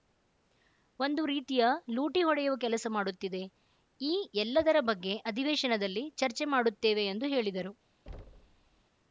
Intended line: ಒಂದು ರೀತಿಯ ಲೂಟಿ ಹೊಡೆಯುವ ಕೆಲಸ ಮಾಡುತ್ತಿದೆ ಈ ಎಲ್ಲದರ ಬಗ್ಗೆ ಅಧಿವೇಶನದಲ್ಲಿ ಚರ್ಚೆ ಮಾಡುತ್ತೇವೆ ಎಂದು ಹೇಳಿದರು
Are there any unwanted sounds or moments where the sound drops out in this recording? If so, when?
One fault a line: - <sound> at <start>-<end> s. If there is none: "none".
- thud at 8.1-8.8 s